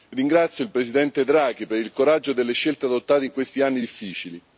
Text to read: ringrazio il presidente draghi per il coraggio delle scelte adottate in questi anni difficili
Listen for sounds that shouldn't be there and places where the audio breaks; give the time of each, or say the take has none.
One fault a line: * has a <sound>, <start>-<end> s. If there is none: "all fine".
all fine